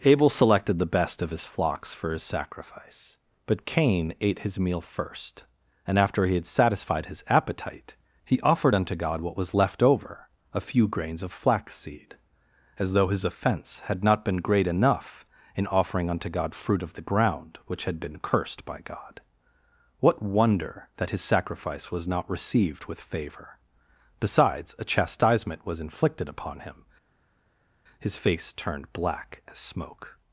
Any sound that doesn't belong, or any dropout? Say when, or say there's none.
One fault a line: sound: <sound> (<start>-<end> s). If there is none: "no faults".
no faults